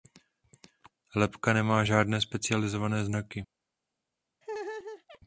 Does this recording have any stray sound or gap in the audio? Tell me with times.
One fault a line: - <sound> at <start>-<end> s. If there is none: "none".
- laugh at 4.4-5.2 s